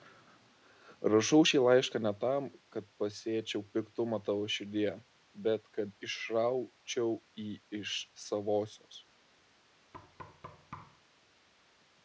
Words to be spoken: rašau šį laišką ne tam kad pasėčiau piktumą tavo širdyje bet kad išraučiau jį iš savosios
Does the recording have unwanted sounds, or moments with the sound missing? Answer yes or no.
yes